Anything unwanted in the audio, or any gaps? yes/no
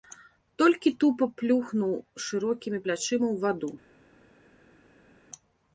no